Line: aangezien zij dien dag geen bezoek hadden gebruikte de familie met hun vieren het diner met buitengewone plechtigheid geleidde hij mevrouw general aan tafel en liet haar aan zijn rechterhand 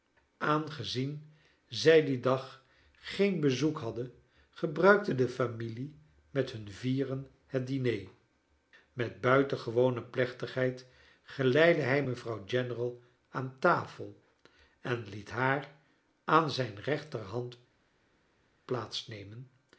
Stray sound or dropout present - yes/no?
no